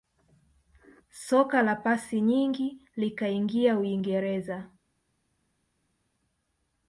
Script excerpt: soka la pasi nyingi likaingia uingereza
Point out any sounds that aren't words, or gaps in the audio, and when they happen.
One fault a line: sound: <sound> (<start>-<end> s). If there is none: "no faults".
no faults